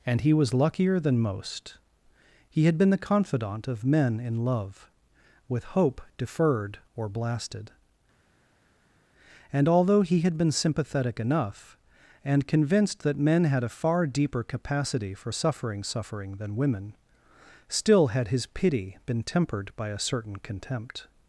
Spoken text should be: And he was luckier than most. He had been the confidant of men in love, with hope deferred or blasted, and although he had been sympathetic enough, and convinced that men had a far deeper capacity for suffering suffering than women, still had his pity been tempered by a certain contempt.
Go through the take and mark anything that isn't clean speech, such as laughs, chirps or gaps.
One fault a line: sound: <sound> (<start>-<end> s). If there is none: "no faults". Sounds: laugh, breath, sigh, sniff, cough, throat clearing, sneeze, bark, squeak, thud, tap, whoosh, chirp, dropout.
no faults